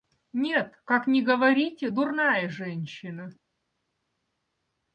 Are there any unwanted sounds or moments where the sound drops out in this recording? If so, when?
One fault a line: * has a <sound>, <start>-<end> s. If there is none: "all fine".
all fine